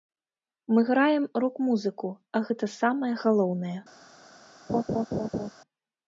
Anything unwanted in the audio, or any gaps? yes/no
yes